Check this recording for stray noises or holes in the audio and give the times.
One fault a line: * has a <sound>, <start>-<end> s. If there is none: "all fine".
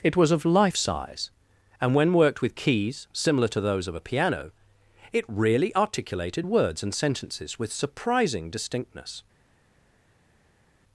all fine